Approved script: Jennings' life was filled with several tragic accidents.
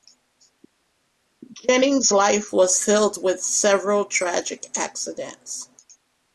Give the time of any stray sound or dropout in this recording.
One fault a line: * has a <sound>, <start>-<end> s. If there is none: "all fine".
all fine